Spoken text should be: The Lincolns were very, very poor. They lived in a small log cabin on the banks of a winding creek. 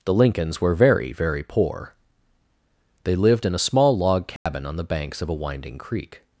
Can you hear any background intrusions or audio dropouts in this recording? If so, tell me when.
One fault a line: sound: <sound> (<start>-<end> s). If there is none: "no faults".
sound: dropout (4.4-4.5 s)